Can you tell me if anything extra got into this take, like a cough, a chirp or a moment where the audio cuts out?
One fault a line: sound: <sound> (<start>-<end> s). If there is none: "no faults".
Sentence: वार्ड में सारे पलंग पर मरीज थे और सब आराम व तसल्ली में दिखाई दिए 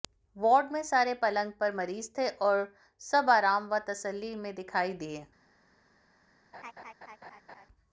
sound: laugh (6.5-7.7 s)